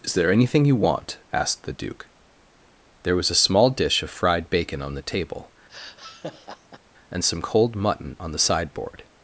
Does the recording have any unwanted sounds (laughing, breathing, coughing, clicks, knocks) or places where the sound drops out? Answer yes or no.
yes